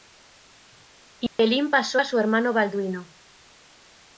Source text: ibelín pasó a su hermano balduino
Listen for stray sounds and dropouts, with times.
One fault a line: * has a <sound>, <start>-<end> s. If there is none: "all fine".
* has a dropout, 1.3-1.4 s